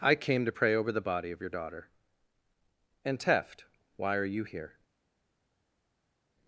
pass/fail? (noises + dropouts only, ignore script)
pass